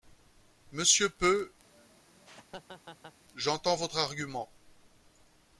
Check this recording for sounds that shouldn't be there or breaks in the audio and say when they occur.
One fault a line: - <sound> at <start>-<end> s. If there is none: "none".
- laugh at 1.6-3.2 s